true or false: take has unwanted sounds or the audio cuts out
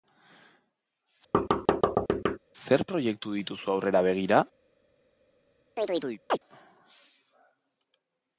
true